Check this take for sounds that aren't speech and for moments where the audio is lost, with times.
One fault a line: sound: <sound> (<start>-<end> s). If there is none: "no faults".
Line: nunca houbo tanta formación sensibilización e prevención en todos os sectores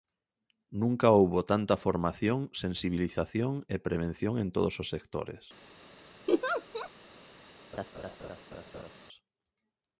sound: laugh (6.3-6.9 s)
sound: laugh (7.7-9.0 s)